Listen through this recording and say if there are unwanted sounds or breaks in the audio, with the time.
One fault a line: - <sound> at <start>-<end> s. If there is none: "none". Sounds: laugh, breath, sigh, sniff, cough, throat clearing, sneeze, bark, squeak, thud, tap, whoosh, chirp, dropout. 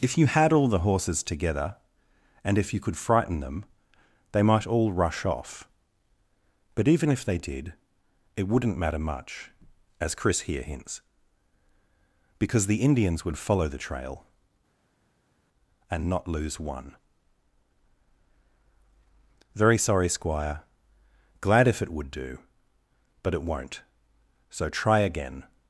none